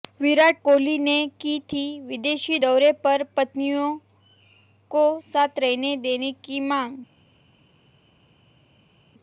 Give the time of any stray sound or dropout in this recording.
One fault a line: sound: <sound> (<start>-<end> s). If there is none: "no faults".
no faults